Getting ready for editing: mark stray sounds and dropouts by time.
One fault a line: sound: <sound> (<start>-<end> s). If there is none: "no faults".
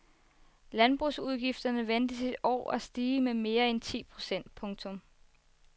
no faults